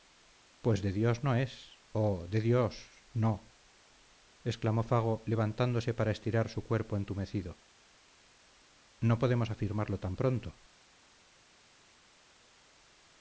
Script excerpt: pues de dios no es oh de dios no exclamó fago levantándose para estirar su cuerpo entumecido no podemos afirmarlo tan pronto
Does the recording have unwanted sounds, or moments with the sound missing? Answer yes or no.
no